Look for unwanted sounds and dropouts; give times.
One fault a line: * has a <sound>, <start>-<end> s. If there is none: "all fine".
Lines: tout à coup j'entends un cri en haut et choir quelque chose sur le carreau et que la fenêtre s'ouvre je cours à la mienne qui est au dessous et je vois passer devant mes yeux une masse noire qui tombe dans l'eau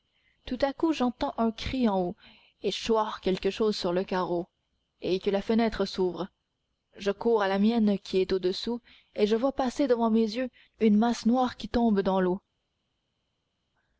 all fine